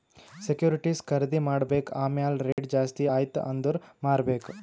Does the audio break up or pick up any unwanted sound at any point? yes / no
yes